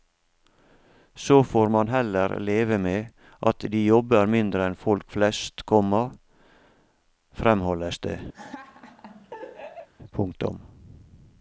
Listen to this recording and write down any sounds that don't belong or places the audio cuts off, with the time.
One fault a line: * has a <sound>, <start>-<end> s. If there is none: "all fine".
* has a laugh, 8.3-9.9 s